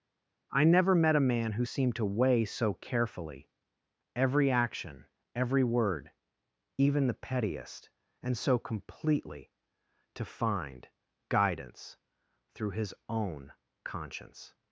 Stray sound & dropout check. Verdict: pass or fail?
pass